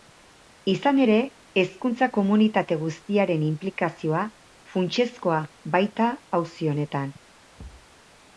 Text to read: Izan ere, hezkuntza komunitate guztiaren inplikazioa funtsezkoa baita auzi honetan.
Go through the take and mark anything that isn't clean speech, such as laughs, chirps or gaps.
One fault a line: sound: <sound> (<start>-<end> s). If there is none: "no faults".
sound: thud (7.6-7.9 s)